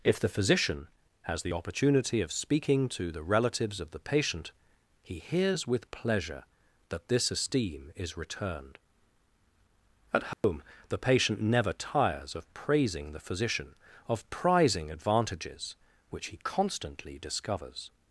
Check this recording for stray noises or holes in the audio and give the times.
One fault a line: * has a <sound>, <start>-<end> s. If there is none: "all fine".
* has a dropout, 10.3-10.4 s